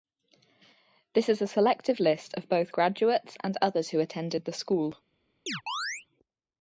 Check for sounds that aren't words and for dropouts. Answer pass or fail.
fail